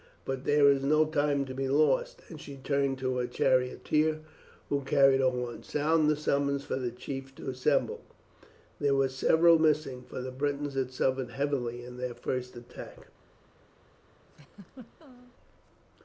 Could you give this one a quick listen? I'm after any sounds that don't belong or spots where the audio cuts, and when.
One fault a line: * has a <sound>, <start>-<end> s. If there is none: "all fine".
* has a laugh, 14.3-15.3 s